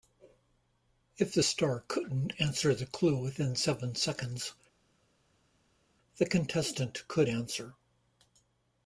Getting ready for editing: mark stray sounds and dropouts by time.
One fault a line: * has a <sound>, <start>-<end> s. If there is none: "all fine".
all fine